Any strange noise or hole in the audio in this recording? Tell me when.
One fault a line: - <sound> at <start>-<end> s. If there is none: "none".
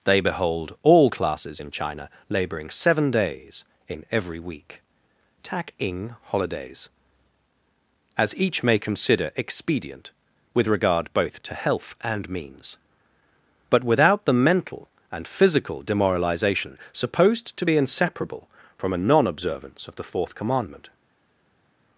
none